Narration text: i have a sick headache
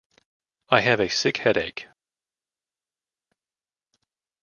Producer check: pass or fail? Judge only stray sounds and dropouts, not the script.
pass